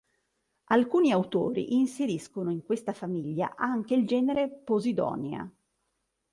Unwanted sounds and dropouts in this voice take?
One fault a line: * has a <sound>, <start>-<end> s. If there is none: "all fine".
all fine